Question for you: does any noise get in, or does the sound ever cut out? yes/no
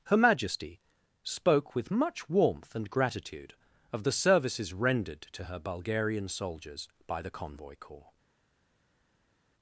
no